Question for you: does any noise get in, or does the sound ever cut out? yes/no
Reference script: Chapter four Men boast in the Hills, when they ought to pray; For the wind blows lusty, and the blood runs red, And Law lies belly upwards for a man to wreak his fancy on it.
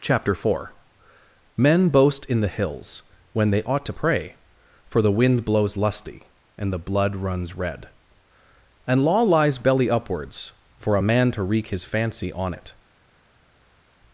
no